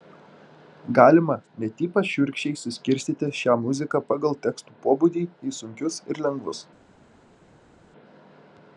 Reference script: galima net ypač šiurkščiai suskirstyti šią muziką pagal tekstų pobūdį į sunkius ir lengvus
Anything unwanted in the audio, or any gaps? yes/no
no